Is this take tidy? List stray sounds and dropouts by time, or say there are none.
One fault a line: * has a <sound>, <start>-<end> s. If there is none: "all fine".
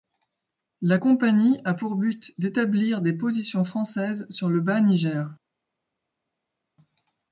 all fine